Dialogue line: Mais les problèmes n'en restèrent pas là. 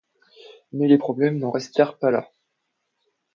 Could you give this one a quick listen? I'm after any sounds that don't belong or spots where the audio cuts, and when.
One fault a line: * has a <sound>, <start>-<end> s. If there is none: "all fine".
all fine